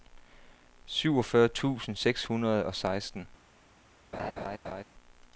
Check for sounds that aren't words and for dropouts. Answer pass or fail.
fail